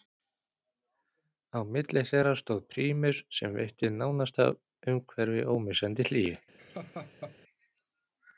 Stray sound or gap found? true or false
true